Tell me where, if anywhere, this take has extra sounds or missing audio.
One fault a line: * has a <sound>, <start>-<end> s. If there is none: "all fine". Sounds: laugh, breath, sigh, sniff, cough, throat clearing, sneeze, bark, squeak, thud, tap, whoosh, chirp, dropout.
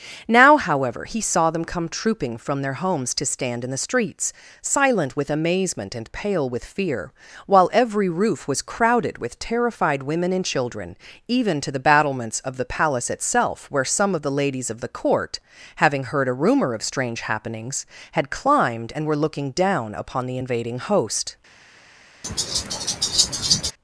* has a laugh, 22.2-23.7 s